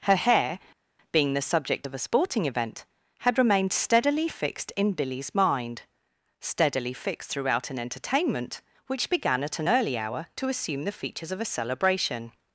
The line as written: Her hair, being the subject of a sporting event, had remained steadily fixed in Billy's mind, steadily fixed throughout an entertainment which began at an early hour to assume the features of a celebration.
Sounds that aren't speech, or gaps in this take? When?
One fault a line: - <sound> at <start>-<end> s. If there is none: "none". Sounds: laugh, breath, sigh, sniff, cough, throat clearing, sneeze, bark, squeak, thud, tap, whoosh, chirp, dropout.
none